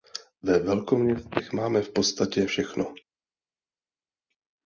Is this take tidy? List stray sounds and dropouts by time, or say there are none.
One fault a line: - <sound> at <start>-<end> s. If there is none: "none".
none